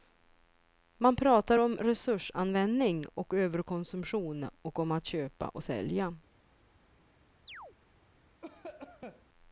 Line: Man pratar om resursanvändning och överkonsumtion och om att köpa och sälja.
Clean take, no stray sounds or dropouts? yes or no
no